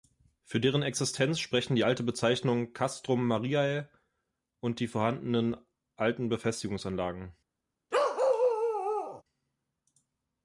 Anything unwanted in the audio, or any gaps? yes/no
yes